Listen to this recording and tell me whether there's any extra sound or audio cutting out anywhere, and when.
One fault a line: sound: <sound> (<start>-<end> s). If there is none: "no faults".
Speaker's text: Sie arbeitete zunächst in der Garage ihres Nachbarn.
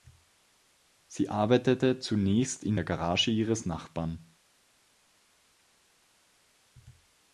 no faults